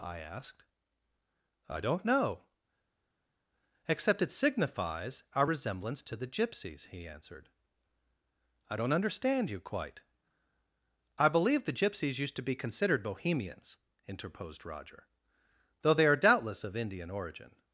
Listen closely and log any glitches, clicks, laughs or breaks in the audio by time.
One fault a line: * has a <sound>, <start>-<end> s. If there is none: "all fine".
all fine